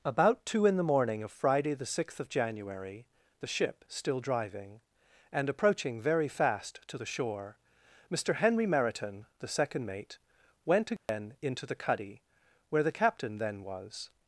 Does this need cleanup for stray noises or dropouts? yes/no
yes